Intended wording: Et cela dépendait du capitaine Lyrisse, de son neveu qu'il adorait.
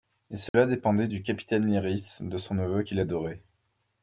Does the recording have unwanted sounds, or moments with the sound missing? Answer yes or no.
yes